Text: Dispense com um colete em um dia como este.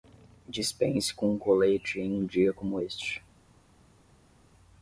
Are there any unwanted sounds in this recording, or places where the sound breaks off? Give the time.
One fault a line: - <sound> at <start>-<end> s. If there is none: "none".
none